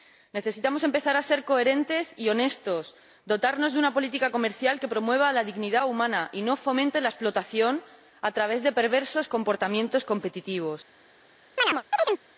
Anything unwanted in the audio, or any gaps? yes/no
yes